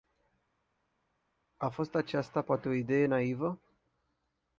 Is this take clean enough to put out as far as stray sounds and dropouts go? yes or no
yes